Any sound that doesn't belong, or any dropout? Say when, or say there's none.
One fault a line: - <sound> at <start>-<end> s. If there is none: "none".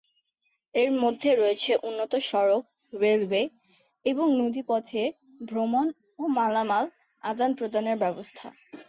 none